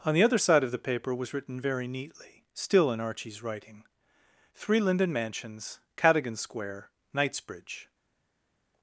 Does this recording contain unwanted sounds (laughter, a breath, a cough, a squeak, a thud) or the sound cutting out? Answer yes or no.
no